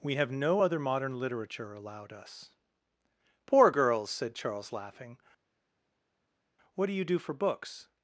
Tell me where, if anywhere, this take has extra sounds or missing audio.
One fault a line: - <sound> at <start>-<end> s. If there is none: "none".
none